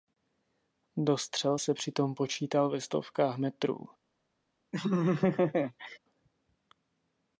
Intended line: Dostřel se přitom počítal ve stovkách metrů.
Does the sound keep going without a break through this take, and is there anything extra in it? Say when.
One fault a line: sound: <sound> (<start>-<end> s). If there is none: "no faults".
sound: laugh (4.7-6.0 s)